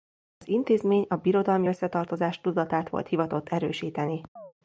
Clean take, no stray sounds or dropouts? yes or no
no